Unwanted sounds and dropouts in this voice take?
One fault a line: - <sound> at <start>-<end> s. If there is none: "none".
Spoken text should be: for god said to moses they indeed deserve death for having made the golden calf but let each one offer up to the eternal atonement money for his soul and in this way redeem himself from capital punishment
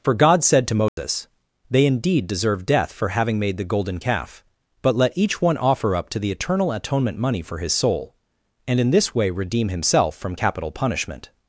- dropout at 0.9-1.0 s